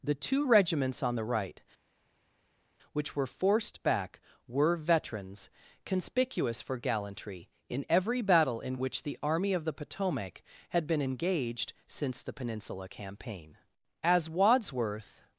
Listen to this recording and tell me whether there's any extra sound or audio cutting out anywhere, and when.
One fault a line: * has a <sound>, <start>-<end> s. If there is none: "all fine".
all fine